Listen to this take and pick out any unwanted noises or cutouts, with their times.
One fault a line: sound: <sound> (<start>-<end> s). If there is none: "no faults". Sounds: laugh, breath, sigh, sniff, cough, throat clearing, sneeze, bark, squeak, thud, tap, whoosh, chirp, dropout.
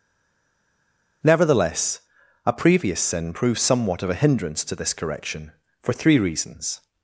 no faults